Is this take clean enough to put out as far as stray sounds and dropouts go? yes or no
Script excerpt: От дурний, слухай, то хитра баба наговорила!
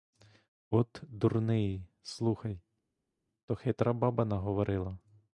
yes